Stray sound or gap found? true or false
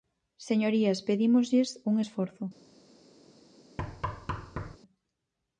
true